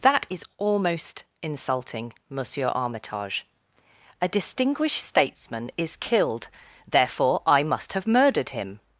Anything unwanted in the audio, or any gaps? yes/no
no